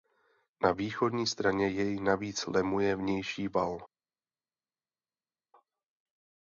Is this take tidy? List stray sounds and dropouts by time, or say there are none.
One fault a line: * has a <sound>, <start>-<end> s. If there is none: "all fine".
all fine